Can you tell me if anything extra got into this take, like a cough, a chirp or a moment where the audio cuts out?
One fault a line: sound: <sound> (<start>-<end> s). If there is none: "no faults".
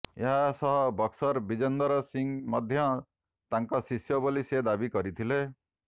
no faults